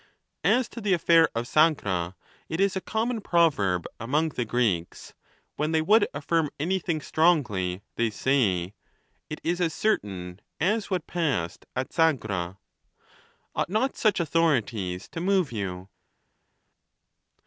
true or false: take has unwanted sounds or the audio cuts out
false